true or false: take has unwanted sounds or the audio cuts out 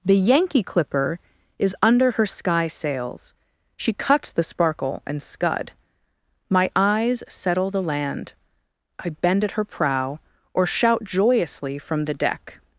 false